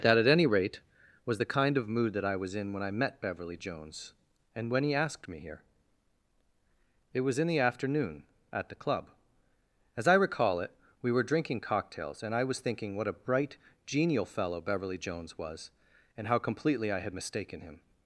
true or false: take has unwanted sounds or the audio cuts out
false